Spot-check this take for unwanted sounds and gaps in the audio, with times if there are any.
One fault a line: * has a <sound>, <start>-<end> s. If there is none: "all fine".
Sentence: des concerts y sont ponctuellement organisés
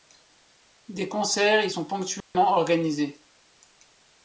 * has a dropout, 2.2-2.3 s